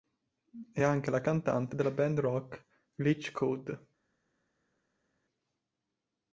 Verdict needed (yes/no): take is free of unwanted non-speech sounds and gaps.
yes